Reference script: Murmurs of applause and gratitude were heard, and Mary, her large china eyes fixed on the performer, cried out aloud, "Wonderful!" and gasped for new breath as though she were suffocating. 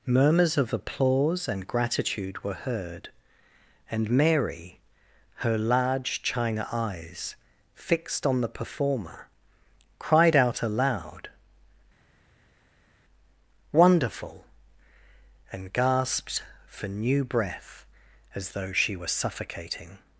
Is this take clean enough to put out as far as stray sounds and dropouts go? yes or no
yes